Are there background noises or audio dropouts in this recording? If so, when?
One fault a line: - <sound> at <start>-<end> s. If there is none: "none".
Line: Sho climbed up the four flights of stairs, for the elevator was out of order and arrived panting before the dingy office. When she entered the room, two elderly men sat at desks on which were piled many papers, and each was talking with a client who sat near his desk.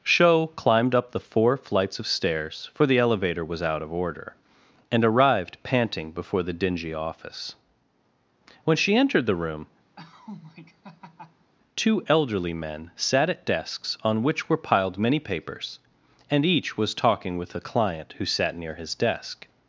- laugh at 10.0-11.5 s